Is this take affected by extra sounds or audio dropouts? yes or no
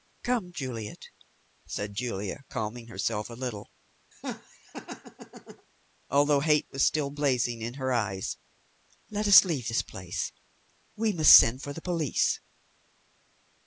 yes